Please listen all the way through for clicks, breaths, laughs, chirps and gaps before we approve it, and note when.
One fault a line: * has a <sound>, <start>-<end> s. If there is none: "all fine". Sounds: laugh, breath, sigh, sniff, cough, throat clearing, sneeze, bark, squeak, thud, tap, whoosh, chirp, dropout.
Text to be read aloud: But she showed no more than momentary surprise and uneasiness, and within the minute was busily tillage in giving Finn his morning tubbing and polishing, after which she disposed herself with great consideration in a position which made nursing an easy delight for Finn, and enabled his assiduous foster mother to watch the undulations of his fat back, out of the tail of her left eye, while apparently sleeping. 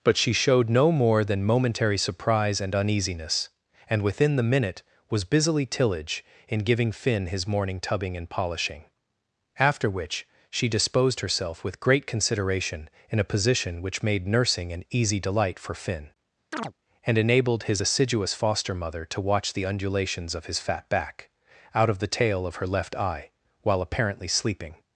* has a chirp, 16.5-16.7 s